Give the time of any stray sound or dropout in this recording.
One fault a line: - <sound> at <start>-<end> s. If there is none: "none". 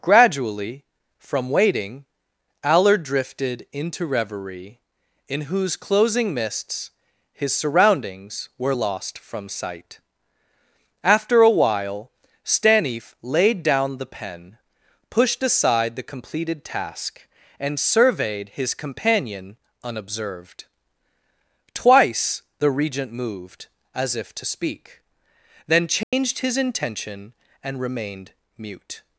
- dropout at 26.0-26.1 s